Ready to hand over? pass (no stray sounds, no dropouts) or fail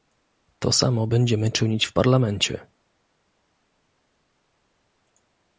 pass